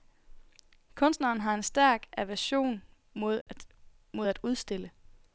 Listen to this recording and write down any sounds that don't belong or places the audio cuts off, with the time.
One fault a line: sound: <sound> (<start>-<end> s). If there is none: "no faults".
sound: dropout (3.4-3.5 s)